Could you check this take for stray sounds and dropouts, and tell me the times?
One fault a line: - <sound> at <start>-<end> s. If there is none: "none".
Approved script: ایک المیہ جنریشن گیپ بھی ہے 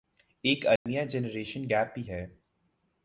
- dropout at 0.8-0.9 s